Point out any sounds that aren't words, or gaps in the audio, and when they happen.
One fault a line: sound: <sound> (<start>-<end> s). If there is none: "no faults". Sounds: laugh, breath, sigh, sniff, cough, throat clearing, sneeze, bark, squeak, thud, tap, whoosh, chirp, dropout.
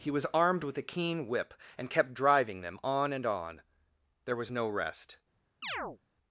sound: chirp (5.6-6.0 s)